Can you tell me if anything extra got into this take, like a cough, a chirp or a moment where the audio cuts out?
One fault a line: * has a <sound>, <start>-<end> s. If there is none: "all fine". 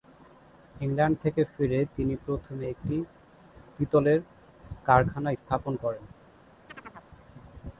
* has a chirp, 6.7-7.1 s